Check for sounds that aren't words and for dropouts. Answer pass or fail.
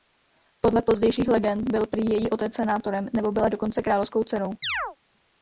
fail